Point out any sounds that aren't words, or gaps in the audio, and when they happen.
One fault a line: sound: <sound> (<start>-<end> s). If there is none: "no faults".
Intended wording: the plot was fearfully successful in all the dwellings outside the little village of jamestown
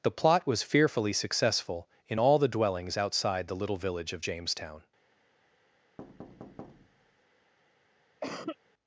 sound: thud (6.0-7.2 s)
sound: cough (8.2-8.6 s)